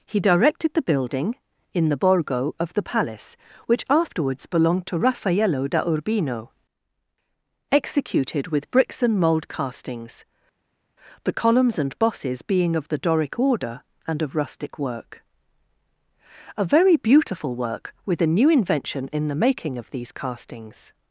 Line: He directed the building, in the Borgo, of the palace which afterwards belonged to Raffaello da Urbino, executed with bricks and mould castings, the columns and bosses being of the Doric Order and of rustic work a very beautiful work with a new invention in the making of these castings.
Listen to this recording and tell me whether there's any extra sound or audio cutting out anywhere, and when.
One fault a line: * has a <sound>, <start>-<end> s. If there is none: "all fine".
all fine